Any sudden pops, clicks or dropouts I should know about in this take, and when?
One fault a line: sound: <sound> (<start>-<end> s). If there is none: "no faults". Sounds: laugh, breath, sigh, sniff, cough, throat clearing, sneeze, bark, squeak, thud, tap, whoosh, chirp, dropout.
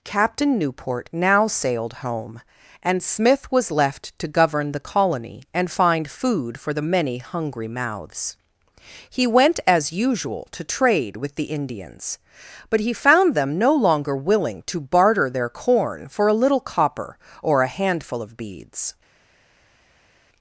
no faults